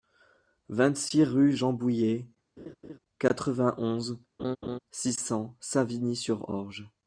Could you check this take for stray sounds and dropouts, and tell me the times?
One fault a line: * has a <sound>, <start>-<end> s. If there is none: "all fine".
* has a laugh, 2.6-3.0 s
* has a laugh, 4.4-4.8 s